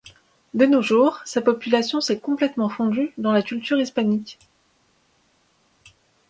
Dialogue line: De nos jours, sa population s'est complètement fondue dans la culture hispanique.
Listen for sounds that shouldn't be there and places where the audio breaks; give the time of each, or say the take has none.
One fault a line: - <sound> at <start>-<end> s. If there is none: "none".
none